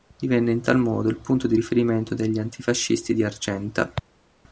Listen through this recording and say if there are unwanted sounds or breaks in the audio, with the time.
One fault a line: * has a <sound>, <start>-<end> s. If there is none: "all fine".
all fine